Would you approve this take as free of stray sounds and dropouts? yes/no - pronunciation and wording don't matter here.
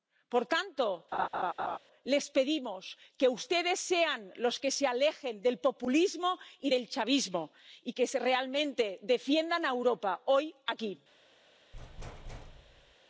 no